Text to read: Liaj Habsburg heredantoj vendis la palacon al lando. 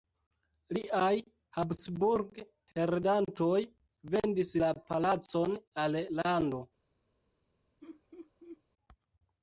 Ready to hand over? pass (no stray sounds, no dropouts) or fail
fail